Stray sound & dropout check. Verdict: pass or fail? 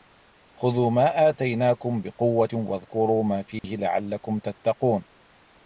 fail